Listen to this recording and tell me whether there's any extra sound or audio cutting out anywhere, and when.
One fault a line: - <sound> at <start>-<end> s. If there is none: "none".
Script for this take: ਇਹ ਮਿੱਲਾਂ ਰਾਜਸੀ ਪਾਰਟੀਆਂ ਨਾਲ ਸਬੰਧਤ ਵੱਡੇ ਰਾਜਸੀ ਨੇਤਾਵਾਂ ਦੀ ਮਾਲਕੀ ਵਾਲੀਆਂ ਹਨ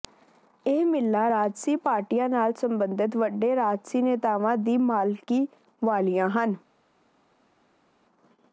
none